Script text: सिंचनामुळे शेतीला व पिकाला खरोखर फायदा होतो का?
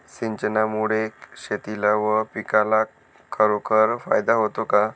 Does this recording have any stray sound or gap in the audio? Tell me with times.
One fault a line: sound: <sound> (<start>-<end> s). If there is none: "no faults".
no faults